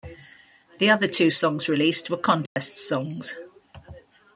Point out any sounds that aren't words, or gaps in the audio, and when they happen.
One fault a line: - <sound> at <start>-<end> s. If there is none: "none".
- dropout at 2.5-2.6 s